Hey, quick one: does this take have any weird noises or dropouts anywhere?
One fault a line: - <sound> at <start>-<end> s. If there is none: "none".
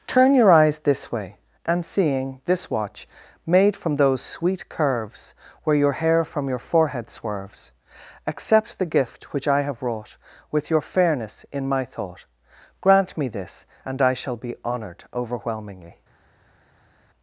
none